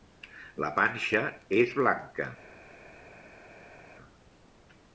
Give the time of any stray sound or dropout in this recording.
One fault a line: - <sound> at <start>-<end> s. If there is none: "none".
none